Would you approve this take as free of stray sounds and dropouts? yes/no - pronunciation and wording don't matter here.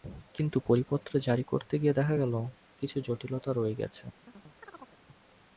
no